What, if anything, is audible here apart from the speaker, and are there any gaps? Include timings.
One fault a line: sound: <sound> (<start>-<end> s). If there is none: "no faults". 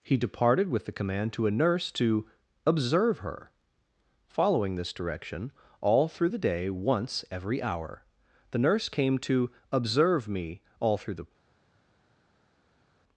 no faults